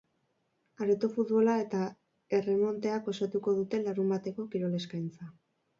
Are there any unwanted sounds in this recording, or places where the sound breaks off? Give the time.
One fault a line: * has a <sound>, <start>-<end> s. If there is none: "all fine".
all fine